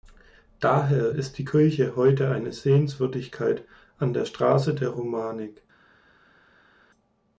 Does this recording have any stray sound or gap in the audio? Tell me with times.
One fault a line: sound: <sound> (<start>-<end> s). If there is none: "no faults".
no faults